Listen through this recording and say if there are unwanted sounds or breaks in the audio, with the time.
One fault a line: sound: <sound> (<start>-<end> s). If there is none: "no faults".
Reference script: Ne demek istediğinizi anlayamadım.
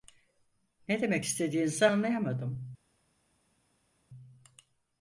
no faults